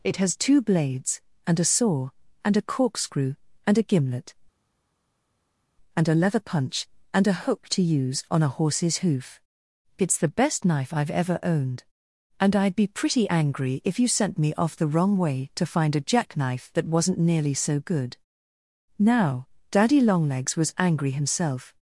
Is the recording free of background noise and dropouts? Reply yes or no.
yes